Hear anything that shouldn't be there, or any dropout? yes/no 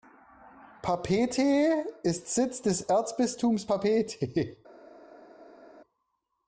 no